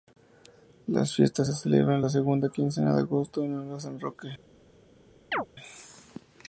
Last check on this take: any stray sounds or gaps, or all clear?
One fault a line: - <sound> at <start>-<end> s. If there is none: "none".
- chirp at 5.3-5.5 s